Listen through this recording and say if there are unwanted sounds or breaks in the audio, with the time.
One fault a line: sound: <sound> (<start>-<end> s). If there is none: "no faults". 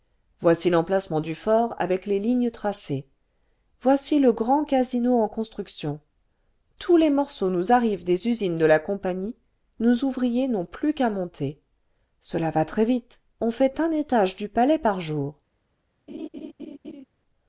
sound: laugh (16.1-17.0 s)